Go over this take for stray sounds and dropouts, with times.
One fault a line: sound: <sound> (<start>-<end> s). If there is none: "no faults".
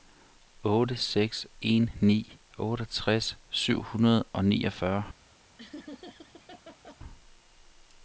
sound: laugh (5.6-7.0 s)